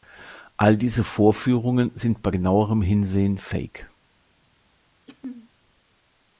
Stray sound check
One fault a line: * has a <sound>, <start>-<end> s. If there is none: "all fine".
* has a throat clearing, 5.1-5.5 s